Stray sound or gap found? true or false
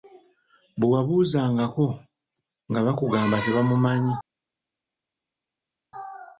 false